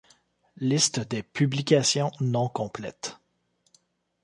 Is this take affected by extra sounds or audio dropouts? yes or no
no